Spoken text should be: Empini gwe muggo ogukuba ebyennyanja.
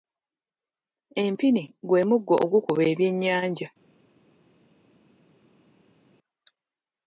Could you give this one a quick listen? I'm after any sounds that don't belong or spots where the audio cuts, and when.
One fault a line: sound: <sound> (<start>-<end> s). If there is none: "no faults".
no faults